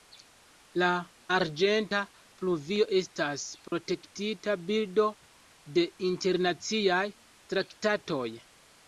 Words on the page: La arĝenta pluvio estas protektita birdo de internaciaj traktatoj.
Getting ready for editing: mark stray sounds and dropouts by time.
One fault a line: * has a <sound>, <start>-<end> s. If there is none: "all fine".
* has a dropout, 3.7-3.7 s